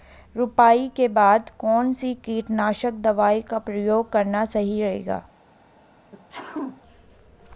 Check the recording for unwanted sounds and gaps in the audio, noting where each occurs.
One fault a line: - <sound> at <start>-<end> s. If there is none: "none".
- sneeze at 6.1-6.8 s